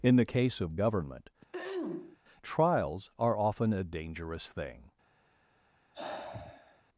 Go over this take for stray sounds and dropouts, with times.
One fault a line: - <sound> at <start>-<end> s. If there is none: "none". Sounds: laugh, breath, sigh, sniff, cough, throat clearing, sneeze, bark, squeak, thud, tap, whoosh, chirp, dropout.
- throat clearing at 1.5-2.2 s
- sigh at 5.9-6.8 s